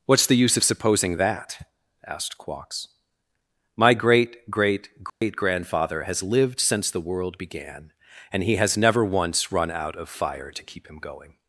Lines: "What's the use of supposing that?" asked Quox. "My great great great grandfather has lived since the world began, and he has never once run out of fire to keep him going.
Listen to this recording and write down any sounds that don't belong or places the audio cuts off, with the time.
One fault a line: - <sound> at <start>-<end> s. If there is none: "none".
- dropout at 5.1-5.2 s